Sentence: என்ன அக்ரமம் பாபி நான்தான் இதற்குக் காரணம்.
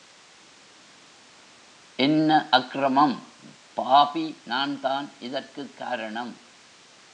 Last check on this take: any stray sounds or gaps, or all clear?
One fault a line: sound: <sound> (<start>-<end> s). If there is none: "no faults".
no faults